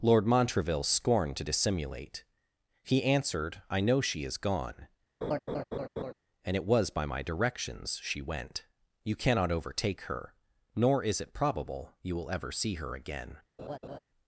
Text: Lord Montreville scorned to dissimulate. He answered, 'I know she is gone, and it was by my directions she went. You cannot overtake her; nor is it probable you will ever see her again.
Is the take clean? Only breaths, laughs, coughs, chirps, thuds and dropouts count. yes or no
no